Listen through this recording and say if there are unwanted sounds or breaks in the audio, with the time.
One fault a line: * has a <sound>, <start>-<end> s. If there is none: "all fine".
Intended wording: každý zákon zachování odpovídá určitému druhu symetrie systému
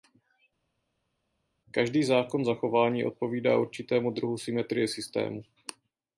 all fine